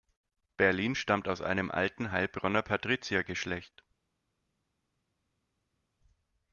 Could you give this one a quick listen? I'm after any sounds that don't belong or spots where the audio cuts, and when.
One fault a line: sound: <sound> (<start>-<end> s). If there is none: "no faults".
no faults